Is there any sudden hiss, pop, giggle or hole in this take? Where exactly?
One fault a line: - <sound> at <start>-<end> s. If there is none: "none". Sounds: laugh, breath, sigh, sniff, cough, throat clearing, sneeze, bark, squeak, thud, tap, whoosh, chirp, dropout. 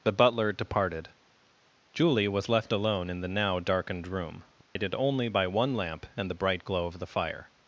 - dropout at 4.6-4.8 s